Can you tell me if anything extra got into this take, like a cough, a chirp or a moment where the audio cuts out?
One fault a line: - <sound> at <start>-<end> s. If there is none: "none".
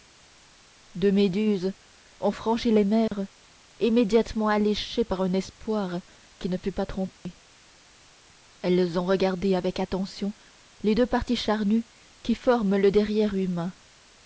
- dropout at 3.1-3.1 s
- dropout at 7.2-7.3 s